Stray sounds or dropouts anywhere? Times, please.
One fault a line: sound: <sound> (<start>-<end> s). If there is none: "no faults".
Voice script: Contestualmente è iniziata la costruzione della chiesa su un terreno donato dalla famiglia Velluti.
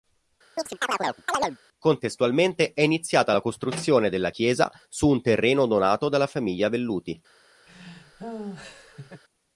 sound: chirp (0.6-1.6 s)
sound: laugh (7.7-9.2 s)